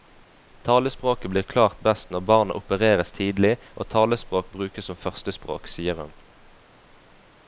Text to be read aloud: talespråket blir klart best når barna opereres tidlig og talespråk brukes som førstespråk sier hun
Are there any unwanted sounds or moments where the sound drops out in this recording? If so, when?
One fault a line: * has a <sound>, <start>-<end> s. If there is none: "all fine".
all fine